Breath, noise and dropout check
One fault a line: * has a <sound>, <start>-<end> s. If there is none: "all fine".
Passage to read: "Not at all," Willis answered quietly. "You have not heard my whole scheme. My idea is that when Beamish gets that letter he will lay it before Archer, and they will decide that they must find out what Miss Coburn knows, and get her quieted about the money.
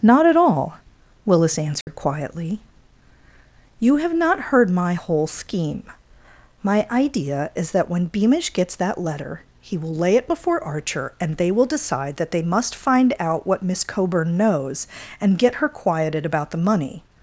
* has a dropout, 1.8-1.9 s